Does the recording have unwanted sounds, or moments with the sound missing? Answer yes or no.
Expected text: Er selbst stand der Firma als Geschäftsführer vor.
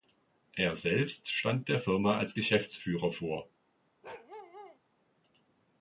yes